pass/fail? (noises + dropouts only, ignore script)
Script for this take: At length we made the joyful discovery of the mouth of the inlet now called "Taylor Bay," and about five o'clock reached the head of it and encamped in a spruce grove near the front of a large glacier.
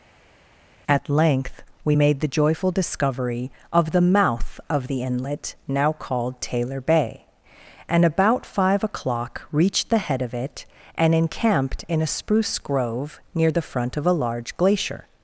pass